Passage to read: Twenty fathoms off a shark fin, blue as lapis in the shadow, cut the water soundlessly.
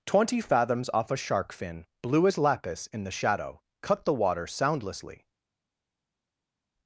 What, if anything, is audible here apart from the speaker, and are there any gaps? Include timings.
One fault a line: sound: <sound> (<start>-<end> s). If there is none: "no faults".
no faults